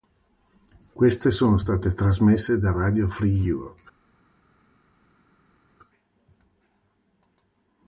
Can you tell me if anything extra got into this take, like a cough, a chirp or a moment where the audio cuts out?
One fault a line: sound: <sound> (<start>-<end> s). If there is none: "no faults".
no faults